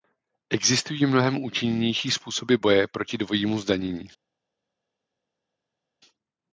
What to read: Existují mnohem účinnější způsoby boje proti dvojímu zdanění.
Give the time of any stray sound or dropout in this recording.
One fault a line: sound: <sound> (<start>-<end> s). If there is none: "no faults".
no faults